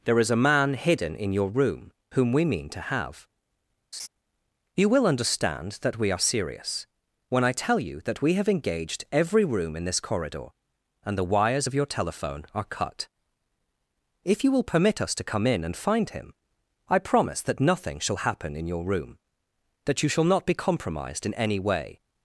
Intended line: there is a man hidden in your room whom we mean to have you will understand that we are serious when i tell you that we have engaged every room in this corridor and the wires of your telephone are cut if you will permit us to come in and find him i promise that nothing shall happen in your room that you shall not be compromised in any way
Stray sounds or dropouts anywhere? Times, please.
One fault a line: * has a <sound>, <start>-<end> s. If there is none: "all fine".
* has a laugh, 3.9-4.1 s